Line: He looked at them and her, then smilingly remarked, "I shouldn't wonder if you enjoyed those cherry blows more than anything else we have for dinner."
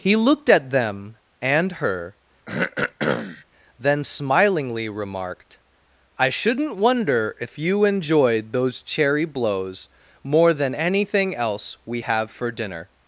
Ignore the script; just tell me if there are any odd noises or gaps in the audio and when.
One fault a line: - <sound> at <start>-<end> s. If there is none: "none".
- throat clearing at 2.5-3.4 s